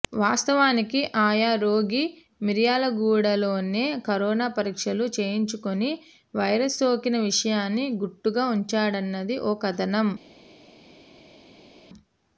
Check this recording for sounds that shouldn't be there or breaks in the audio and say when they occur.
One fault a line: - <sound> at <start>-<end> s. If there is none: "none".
none